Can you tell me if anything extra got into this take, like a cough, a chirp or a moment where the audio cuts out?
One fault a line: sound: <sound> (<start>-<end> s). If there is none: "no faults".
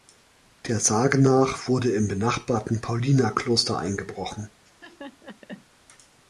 sound: laugh (4.7-5.7 s)